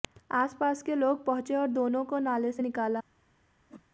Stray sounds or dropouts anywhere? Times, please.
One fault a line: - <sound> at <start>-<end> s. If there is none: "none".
- whoosh at 3.7-3.8 s